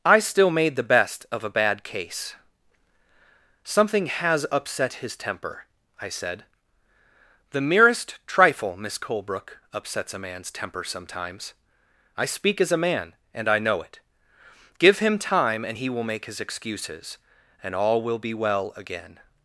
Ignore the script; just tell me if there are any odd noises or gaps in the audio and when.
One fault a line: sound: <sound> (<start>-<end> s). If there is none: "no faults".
no faults